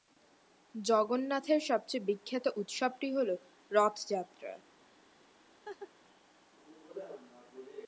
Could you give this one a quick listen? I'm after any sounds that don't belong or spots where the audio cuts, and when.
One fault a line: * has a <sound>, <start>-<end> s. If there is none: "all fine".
* has a laugh, 5.7-5.9 s